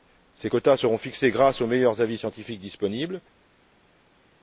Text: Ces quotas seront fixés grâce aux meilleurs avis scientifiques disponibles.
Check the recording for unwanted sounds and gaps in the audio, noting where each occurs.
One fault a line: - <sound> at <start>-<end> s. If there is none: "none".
none